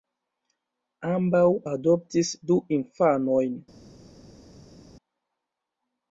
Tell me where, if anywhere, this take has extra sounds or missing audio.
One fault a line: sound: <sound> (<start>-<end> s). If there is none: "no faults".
no faults